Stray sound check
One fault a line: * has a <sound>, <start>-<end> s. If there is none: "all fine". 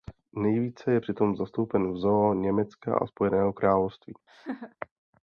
* has a laugh, 4.3-4.8 s